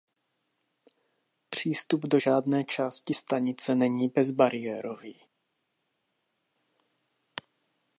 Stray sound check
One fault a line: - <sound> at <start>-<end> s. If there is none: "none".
none